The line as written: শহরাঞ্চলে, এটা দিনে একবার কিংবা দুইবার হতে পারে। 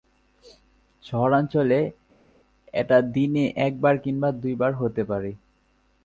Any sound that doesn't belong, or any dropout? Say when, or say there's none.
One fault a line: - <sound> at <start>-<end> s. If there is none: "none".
none